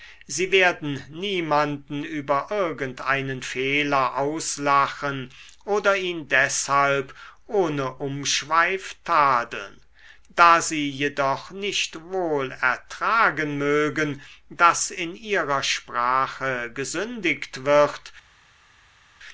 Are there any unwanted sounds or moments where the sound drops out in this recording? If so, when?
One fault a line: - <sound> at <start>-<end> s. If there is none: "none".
none